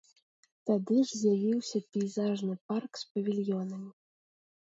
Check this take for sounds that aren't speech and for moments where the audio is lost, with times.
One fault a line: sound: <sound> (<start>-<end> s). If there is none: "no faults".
no faults